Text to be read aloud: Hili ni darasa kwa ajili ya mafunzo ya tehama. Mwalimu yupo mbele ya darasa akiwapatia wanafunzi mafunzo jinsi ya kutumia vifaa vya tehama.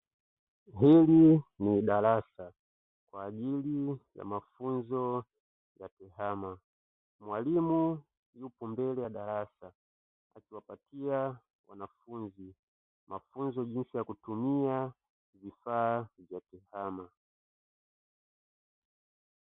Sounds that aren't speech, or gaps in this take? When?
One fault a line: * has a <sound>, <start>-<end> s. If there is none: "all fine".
all fine